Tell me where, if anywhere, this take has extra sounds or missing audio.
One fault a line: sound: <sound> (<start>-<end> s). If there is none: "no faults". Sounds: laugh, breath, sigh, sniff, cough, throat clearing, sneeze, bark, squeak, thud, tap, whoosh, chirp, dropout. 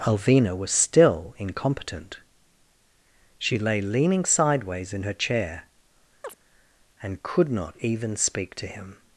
sound: chirp (6.2-6.3 s)